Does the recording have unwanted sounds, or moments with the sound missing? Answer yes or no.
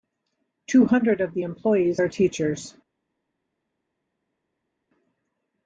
no